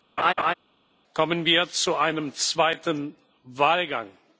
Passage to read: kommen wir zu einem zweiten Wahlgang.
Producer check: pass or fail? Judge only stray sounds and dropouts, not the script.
fail